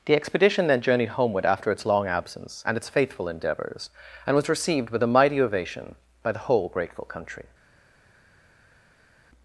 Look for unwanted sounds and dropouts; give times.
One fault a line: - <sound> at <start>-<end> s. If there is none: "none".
none